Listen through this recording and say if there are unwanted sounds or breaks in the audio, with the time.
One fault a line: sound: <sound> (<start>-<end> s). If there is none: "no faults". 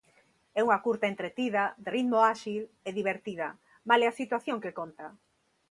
no faults